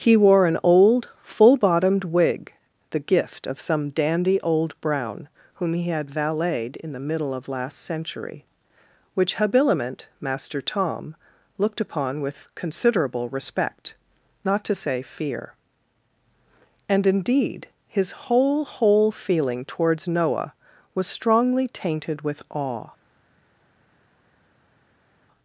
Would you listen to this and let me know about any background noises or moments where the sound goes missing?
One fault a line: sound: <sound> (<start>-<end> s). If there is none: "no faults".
no faults